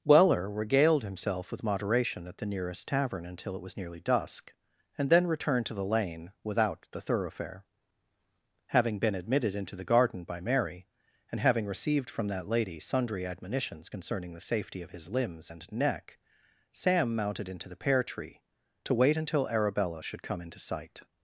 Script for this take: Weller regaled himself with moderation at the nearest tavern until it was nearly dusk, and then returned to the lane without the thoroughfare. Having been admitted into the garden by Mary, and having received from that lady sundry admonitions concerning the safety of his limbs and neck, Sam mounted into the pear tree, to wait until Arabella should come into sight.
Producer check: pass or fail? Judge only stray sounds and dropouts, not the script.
pass